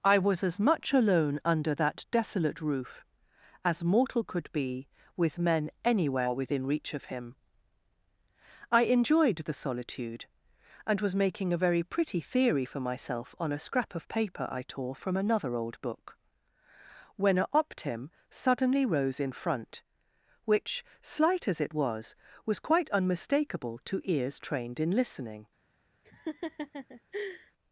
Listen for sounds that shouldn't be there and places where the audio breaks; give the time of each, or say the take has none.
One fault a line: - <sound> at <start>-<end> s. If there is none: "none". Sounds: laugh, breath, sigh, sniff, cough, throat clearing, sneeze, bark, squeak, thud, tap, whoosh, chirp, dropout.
- laugh at 26.0-27.5 s